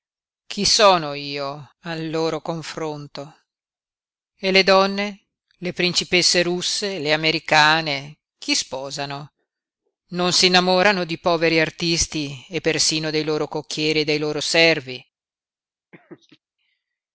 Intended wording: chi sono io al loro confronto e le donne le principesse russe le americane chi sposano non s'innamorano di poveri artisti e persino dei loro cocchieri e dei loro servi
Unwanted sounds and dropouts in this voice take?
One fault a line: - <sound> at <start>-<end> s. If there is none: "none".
- laugh at 15.9-16.4 s